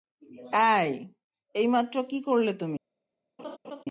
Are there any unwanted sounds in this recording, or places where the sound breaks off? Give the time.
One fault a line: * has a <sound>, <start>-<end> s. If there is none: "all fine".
* has a laugh, 3.4-3.8 s